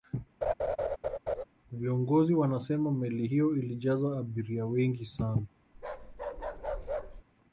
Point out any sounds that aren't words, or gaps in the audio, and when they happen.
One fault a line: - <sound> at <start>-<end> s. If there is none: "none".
- laugh at 0.4-1.4 s
- bark at 5.7-7.2 s